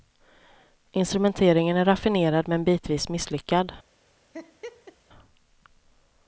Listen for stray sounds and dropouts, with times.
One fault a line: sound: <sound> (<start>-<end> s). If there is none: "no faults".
sound: laugh (4.3-5.0 s)